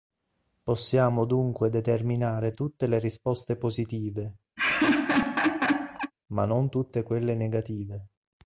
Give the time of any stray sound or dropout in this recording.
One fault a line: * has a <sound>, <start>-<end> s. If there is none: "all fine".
* has a laugh, 4.6-6.1 s